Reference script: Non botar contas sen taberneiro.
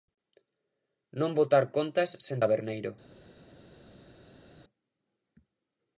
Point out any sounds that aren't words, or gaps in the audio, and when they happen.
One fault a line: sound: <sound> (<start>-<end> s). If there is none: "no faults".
no faults